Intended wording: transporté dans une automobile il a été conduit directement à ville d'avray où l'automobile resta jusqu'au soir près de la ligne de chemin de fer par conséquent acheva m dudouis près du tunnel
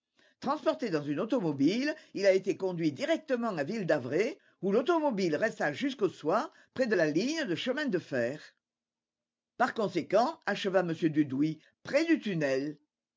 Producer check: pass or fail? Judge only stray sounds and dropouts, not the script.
pass